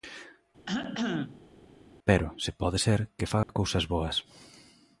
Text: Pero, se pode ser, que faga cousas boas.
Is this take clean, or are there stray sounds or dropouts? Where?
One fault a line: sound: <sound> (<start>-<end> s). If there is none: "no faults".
sound: cough (0.7-1.5 s)
sound: dropout (3.4-3.5 s)